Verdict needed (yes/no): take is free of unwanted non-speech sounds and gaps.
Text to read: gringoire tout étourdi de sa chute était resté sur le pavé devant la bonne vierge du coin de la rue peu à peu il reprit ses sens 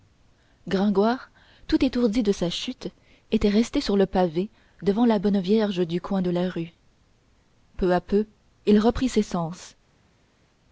yes